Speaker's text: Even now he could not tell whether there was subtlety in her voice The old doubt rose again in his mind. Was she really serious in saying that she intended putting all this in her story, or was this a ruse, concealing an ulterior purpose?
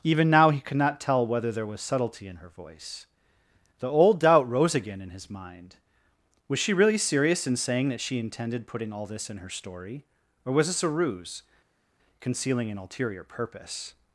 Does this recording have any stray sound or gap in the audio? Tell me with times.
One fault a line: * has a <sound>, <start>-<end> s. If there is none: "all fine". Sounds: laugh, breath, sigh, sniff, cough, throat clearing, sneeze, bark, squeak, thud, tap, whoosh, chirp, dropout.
all fine